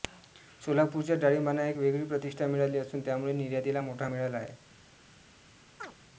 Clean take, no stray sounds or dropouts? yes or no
no